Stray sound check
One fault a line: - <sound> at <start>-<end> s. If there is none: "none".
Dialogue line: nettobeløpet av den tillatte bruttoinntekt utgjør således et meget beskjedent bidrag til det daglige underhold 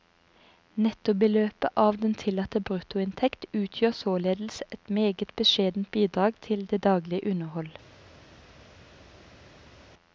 none